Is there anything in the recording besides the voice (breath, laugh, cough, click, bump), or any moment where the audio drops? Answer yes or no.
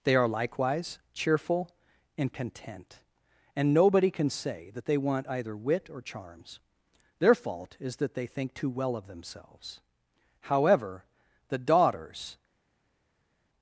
no